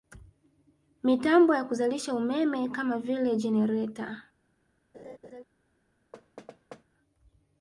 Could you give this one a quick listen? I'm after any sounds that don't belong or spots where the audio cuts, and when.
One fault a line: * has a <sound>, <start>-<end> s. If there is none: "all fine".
* has a laugh, 4.9-5.4 s
* has a thud, 6.1-6.8 s